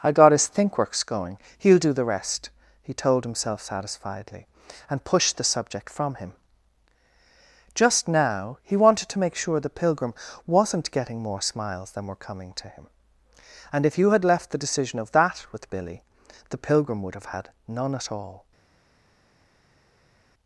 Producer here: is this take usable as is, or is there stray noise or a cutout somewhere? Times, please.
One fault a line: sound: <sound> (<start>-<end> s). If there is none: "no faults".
no faults